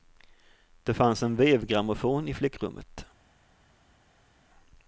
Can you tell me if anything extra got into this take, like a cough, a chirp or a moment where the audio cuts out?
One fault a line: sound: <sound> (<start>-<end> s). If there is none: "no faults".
no faults